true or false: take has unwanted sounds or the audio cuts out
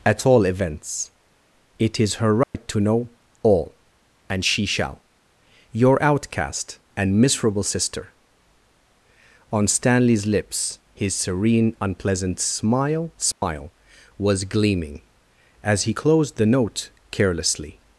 true